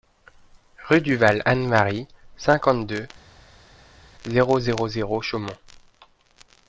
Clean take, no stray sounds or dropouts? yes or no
yes